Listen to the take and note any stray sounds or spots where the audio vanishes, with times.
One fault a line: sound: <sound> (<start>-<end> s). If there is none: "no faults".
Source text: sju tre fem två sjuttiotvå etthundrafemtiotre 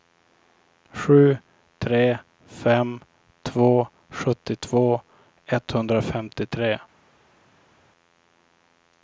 no faults